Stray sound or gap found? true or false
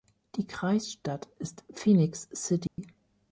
true